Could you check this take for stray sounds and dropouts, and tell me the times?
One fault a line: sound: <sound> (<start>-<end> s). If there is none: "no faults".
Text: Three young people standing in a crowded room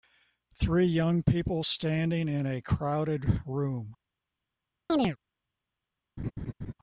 sound: chirp (4.9-5.2 s)
sound: laugh (6.2-6.7 s)